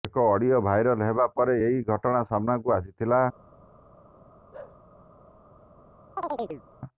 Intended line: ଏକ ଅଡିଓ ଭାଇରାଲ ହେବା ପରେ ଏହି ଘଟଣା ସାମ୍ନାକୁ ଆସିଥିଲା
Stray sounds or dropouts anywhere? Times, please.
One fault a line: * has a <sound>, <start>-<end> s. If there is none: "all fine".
* has a bark, 4.5-4.8 s
* has a chirp, 6.2-6.6 s